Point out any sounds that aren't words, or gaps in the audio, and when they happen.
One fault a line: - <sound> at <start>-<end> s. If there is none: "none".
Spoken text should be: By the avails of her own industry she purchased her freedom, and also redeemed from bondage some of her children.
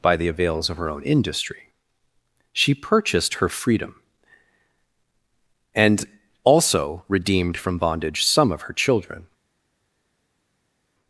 none